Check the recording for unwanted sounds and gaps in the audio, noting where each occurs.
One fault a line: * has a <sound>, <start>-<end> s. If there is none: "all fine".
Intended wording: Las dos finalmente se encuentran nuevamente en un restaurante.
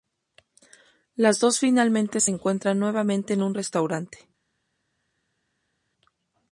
all fine